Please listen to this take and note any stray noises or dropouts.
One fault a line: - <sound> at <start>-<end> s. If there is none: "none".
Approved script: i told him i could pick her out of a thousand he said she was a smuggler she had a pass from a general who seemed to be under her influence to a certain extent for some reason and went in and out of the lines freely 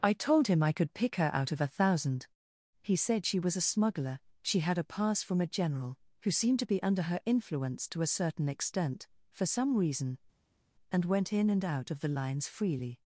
none